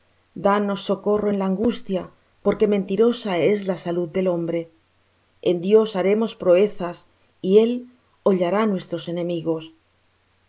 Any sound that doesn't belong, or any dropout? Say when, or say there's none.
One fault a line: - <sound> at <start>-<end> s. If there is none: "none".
none